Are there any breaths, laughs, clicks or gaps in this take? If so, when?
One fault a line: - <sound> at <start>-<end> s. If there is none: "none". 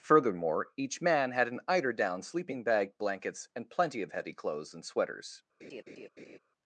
- laugh at 5.6-6.4 s